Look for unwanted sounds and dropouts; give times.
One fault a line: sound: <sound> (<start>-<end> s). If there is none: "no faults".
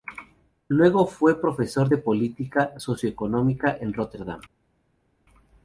no faults